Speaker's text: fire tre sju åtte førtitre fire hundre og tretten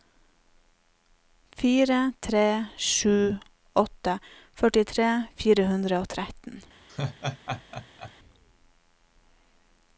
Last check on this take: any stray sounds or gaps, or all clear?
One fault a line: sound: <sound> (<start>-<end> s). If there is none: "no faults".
sound: laugh (6.9-8.1 s)